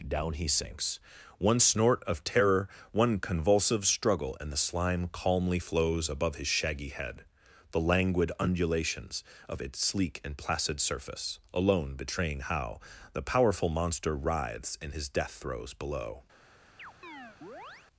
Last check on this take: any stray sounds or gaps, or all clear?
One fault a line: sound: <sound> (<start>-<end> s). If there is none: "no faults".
sound: chirp (16.8-17.9 s)